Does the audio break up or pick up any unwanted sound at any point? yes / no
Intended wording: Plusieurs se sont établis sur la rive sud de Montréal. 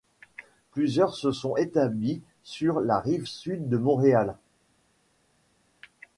no